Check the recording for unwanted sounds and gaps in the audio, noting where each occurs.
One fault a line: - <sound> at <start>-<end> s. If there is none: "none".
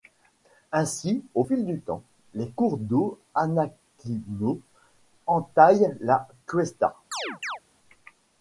- chirp at 7.1-7.6 s